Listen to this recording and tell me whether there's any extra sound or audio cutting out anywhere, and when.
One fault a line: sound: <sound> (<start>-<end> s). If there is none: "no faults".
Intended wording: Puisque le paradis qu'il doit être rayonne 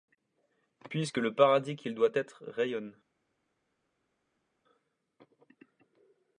no faults